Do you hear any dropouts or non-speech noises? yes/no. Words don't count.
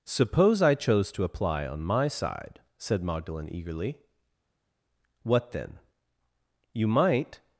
no